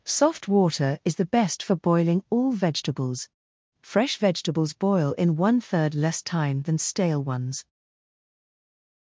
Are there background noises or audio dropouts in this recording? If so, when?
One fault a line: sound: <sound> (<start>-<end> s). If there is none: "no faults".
no faults